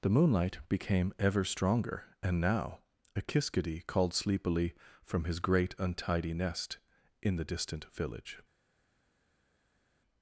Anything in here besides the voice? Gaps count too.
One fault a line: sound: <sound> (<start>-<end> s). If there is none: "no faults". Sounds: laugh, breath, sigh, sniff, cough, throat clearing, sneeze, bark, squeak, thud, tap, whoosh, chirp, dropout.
no faults